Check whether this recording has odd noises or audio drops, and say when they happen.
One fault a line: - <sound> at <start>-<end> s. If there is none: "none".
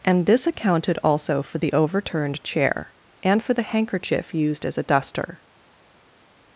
none